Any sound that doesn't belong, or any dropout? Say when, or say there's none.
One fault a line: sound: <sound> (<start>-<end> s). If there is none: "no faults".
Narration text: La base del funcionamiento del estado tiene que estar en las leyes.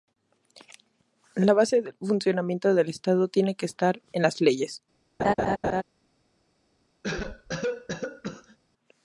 sound: laugh (5.2-5.8 s)
sound: cough (7.0-8.6 s)